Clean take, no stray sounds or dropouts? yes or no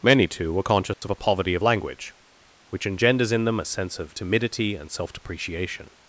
no